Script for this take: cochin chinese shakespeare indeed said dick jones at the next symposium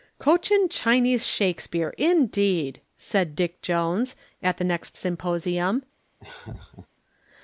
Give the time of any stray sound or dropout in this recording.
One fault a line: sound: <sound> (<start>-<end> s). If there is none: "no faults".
sound: laugh (6.2-6.9 s)